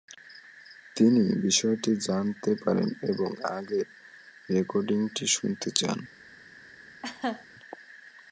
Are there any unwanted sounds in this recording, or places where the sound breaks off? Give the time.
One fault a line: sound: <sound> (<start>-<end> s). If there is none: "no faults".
sound: laugh (7.0-7.5 s)